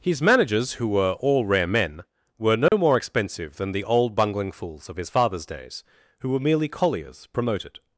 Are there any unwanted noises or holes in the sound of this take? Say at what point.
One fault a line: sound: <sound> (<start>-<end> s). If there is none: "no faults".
sound: dropout (2.7-2.7 s)